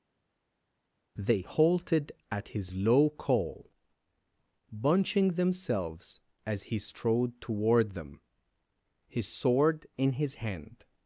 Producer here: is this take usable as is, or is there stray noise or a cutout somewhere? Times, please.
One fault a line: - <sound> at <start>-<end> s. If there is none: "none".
none